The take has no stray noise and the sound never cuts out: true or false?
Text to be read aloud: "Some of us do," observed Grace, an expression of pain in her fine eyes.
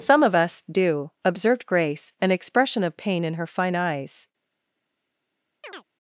false